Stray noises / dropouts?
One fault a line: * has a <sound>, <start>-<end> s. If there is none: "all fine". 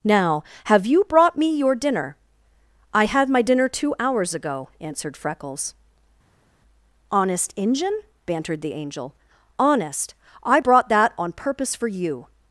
all fine